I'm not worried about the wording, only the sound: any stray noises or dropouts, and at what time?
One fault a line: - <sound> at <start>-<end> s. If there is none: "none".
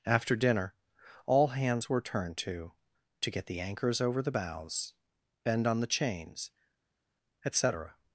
none